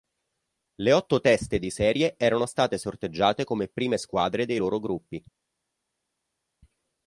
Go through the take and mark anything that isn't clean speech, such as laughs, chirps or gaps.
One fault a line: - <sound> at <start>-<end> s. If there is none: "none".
none